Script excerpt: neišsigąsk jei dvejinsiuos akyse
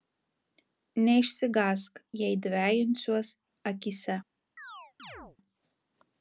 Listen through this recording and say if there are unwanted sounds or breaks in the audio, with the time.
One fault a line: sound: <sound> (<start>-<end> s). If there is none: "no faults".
sound: chirp (4.6-5.4 s)